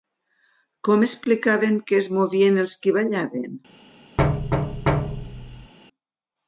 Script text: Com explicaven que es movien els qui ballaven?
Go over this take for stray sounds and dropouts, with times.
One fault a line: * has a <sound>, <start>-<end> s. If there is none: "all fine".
* has a thud, 4.2-5.7 s